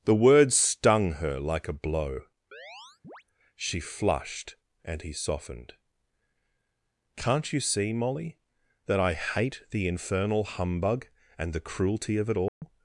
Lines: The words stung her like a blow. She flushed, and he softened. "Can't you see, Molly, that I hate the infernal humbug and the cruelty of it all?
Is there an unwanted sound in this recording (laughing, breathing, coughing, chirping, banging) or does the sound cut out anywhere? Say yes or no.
yes